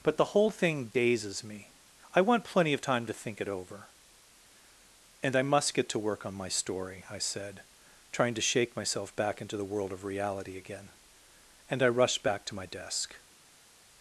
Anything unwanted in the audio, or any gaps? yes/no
no